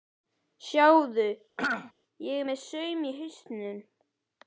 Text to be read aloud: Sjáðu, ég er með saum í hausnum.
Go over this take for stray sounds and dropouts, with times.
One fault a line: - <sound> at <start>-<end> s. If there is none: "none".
- throat clearing at 1.6-1.9 s